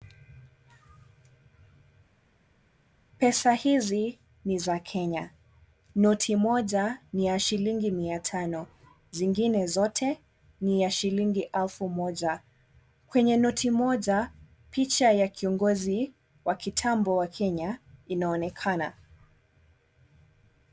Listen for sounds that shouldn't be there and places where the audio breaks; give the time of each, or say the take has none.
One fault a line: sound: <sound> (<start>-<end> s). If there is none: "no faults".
no faults